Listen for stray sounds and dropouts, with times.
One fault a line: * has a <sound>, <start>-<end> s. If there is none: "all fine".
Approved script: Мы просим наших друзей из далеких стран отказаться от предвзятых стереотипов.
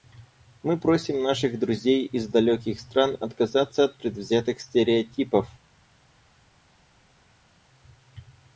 all fine